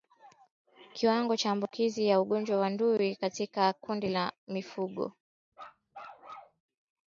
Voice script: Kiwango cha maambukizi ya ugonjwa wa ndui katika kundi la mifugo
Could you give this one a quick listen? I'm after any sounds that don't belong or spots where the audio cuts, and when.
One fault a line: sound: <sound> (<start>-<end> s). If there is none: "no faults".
sound: bark (5.5-6.6 s)